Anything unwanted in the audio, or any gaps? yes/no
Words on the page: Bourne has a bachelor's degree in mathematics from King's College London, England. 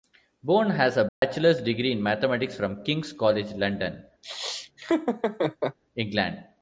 yes